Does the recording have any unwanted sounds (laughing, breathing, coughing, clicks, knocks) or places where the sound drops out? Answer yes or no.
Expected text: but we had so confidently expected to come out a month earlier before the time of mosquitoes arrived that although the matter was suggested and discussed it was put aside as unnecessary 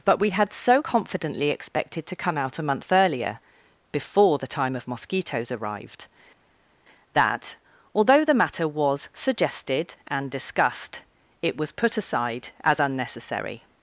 no